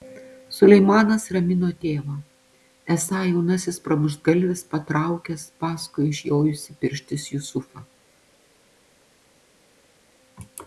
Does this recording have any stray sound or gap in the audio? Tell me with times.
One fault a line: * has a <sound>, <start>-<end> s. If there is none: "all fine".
all fine